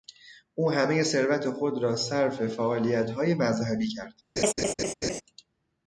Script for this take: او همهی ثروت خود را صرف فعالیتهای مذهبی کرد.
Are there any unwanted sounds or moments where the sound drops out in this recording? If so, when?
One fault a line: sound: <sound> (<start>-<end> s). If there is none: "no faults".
sound: laugh (4.4-5.2 s)